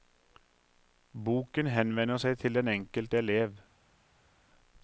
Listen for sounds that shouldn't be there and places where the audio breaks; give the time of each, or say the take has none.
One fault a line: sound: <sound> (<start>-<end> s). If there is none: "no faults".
no faults